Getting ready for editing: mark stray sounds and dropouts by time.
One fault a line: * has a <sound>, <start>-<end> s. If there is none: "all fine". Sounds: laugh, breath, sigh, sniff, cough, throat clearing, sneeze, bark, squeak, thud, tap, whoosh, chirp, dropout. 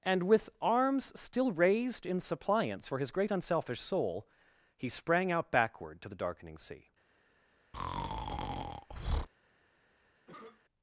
* has a breath, 7.7-9.3 s
* has a cough, 10.3-10.6 s